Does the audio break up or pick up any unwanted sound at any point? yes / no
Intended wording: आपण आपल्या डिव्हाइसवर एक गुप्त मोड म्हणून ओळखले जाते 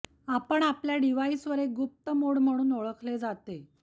no